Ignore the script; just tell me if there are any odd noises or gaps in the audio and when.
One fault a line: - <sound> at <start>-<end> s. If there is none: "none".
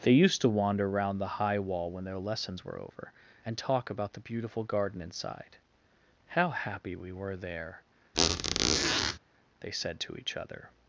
- squeak at 8.1-9.2 s